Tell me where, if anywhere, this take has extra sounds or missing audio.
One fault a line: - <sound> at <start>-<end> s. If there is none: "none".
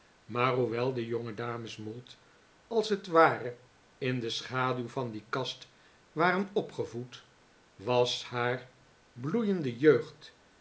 none